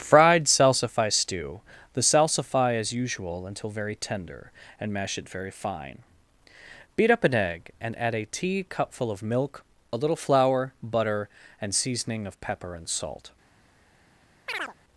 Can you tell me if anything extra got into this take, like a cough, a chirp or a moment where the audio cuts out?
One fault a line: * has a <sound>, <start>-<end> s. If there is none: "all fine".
* has a chirp, 14.5-14.7 s